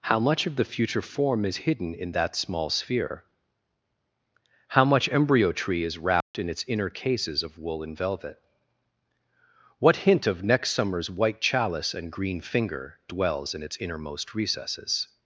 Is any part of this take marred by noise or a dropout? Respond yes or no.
yes